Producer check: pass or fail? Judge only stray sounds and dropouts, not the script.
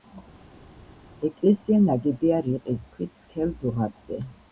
pass